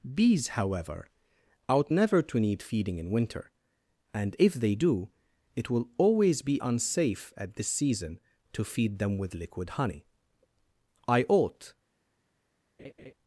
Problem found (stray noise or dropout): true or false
true